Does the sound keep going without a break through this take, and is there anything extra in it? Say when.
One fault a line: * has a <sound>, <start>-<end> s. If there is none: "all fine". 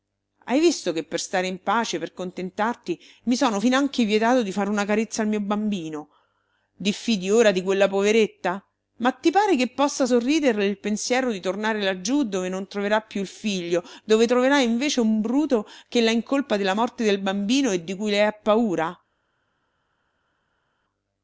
all fine